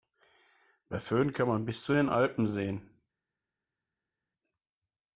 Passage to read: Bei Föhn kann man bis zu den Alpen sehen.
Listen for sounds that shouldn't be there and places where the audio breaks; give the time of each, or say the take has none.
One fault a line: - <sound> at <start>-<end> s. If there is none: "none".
none